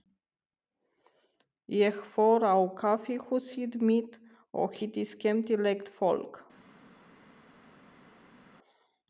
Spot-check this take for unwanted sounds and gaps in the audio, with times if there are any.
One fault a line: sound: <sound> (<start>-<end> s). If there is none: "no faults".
no faults